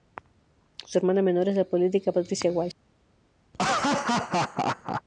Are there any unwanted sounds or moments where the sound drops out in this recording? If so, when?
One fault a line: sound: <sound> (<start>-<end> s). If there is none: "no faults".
sound: laugh (3.5-5.0 s)